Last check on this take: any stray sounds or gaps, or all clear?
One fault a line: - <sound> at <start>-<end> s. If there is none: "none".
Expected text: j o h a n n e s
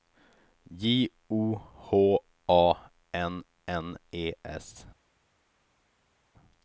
none